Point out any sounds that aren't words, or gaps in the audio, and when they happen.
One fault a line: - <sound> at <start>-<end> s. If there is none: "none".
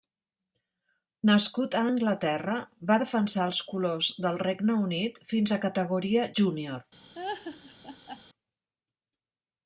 - laugh at 7.1-8.2 s